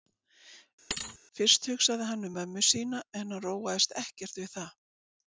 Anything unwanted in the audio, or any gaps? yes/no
yes